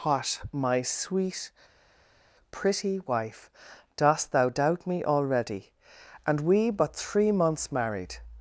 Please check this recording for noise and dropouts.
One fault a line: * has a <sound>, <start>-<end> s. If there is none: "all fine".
all fine